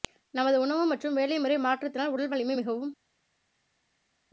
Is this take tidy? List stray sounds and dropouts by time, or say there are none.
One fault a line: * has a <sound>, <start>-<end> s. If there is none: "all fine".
all fine